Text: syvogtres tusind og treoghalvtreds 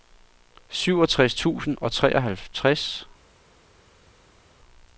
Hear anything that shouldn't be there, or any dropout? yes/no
no